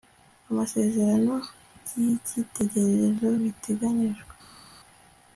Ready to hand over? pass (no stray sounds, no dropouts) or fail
pass